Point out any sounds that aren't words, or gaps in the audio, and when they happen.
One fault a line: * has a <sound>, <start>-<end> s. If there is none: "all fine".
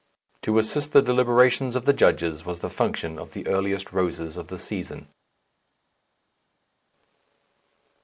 all fine